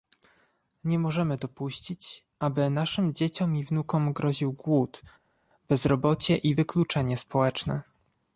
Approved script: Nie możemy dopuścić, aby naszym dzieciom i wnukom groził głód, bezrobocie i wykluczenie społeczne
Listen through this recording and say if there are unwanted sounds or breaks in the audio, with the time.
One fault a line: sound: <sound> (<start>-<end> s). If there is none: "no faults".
no faults